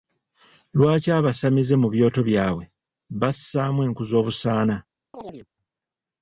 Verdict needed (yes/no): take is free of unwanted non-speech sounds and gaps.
no